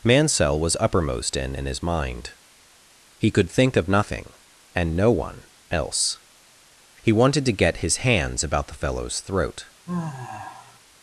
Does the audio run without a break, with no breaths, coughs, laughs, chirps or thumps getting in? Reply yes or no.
no